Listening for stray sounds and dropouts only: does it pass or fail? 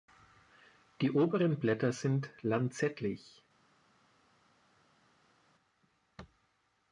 pass